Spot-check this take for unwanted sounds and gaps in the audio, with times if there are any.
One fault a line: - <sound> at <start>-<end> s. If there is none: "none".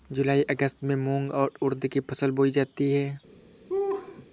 - laugh at 3.7-4.3 s